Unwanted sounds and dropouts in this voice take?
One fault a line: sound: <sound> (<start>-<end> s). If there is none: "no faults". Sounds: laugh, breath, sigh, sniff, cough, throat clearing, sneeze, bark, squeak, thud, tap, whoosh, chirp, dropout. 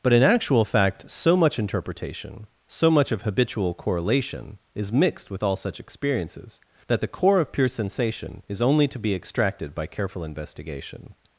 no faults